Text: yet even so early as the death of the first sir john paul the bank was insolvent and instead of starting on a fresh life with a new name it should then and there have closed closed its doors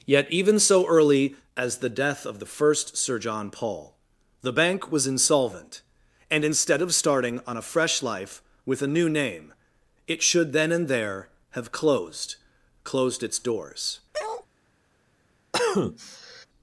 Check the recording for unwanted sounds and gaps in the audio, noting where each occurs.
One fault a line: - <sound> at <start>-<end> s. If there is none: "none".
- bark at 14.1-14.5 s
- cough at 15.5-16.5 s